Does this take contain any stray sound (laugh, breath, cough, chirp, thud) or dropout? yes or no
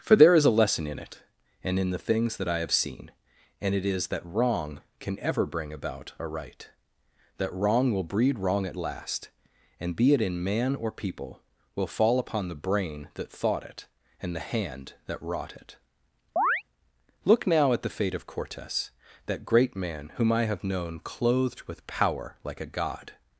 yes